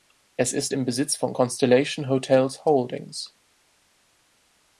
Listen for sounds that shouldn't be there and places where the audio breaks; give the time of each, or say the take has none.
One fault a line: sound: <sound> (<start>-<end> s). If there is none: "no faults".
no faults